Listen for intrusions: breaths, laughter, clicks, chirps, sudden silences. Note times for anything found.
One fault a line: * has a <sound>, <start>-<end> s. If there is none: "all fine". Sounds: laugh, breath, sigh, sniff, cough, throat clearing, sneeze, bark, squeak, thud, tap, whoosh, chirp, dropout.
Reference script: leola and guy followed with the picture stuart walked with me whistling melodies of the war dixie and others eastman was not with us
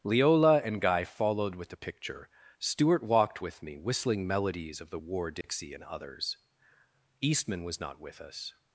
* has a dropout, 5.4-5.4 s